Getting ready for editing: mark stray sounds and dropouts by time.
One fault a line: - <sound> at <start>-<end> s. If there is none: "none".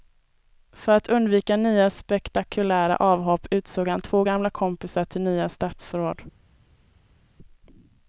none